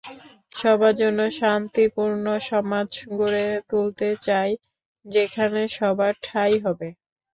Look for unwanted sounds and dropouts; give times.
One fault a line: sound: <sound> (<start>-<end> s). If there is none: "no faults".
no faults